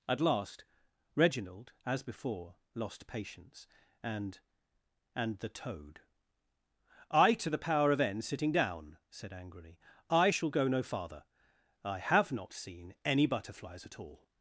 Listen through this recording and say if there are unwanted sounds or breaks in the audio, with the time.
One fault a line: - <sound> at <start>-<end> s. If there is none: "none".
none